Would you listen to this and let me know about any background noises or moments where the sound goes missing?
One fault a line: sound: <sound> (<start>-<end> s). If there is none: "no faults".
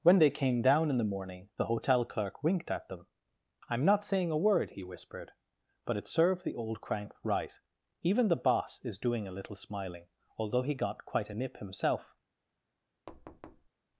sound: thud (13.1-13.7 s)